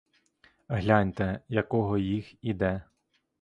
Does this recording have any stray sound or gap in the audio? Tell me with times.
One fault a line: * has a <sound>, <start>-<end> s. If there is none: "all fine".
all fine